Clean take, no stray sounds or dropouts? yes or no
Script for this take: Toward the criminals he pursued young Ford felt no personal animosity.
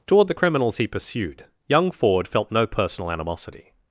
yes